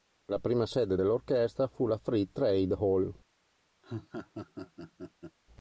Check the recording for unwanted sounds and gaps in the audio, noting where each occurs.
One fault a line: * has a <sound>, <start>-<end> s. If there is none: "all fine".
* has a laugh, 3.8-5.4 s